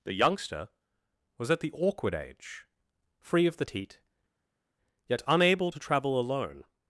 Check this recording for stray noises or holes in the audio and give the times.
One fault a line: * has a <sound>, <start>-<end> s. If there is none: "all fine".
all fine